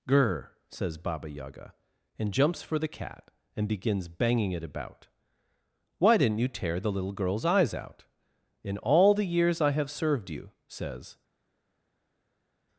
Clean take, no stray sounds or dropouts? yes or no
yes